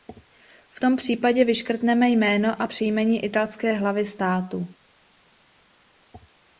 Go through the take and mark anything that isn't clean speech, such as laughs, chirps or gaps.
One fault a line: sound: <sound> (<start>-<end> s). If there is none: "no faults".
no faults